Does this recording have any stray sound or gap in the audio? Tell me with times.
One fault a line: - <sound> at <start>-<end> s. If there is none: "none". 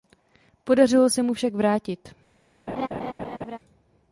- laugh at 2.7-3.6 s